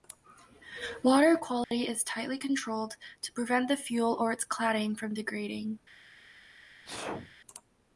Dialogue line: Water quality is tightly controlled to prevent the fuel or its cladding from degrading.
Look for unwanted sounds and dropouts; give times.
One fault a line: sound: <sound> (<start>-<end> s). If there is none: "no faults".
sound: dropout (1.6-1.7 s)
sound: sneeze (6.8-7.4 s)